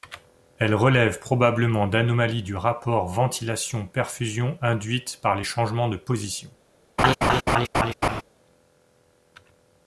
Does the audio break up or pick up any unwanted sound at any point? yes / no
yes